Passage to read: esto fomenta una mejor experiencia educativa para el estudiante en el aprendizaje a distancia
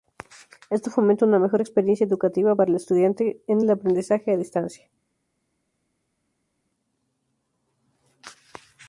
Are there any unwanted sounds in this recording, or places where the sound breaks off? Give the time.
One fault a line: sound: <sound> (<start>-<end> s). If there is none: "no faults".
no faults